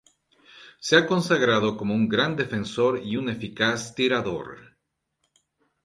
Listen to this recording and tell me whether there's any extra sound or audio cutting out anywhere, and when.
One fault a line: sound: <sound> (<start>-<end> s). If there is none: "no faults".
no faults